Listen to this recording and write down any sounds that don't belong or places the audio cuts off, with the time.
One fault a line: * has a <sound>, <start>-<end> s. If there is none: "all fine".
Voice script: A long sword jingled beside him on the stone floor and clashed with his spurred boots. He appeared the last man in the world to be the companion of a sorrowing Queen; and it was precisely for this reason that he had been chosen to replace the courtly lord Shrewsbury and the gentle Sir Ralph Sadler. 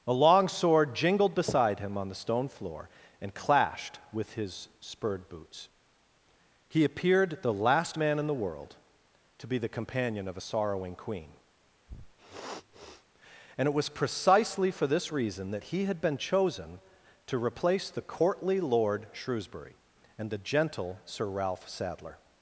* has a sniff, 11.9-13.1 s